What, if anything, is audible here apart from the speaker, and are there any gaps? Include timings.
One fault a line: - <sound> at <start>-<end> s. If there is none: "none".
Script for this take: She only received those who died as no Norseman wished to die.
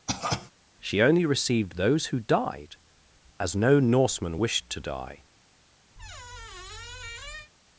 - cough at 0.1-0.5 s
- squeak at 6.0-7.5 s